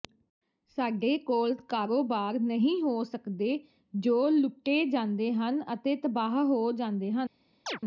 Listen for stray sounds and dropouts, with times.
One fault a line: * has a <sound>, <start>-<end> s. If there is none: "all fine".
* has a chirp, 7.7-7.8 s